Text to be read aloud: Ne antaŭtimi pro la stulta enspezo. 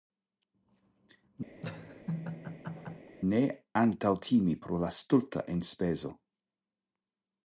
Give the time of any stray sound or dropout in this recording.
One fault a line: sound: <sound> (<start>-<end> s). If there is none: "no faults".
sound: laugh (1.6-3.1 s)